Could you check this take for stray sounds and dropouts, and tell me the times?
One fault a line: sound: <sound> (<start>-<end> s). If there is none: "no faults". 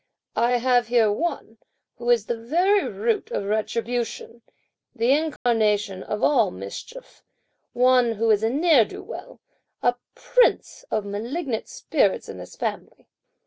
sound: dropout (5.4-5.5 s)